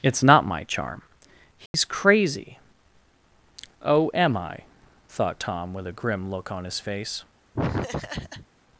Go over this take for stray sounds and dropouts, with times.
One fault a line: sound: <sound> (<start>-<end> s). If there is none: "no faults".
sound: dropout (1.7-1.7 s)
sound: laugh (7.5-8.5 s)